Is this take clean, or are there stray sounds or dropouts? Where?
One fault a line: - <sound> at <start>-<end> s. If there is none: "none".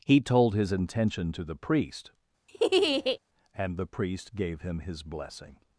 - laugh at 2.5-3.2 s